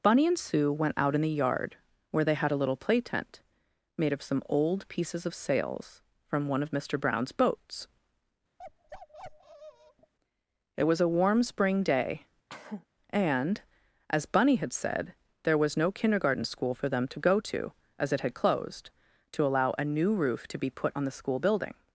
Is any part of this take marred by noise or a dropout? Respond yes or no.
yes